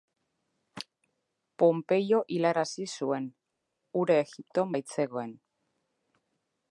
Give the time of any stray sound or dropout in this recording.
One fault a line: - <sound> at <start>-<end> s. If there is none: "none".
none